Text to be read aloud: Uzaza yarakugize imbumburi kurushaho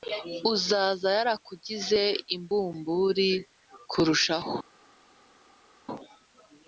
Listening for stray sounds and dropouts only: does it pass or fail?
pass